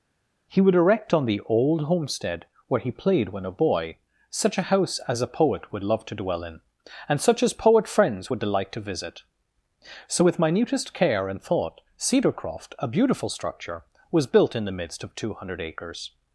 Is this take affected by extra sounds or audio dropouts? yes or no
no